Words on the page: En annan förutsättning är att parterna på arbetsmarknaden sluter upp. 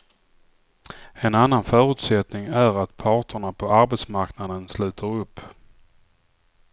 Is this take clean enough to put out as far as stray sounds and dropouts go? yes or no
yes